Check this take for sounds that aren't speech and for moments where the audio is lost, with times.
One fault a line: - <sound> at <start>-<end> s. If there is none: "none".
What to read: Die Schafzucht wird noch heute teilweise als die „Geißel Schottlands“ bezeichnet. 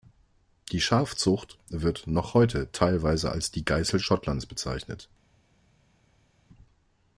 none